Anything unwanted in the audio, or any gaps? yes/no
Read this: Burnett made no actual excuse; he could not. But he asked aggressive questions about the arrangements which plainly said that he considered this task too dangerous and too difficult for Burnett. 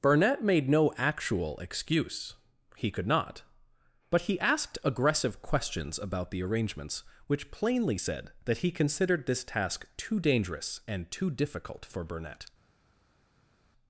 no